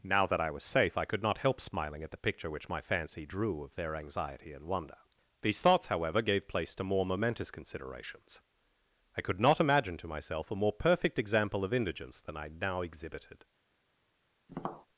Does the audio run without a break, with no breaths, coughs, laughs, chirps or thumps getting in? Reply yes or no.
no